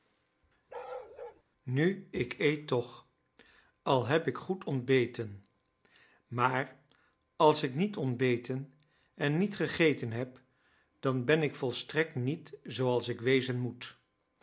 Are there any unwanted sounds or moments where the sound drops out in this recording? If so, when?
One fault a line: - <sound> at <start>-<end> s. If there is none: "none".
- bark at 0.7-1.4 s